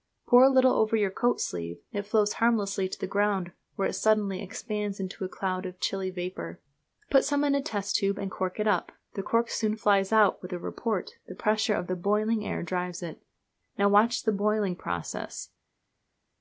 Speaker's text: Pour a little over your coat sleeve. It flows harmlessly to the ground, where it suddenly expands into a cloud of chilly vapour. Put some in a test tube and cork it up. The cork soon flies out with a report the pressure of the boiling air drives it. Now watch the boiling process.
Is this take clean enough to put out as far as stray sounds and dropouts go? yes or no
yes